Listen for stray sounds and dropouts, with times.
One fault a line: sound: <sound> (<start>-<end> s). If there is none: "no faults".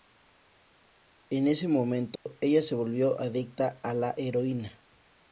sound: dropout (2.2-2.3 s)